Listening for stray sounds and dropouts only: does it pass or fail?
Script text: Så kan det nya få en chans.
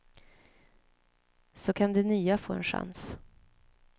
pass